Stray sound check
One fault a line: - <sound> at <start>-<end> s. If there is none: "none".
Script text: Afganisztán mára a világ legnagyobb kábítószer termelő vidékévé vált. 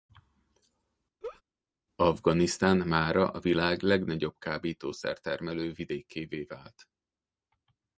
- laugh at 1.2-1.4 s